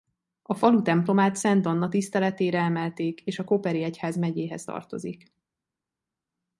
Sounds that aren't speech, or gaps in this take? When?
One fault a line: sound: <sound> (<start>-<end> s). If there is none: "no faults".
no faults